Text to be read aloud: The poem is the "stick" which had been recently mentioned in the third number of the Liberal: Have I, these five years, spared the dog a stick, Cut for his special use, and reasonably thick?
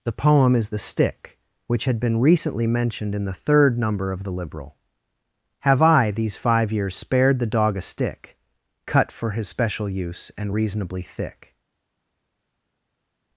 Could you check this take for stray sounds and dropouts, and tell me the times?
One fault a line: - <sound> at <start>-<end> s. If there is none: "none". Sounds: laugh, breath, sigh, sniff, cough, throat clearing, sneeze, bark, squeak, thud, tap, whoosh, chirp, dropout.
none